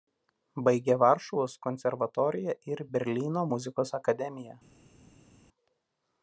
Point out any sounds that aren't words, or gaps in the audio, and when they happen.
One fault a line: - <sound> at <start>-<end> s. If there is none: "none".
none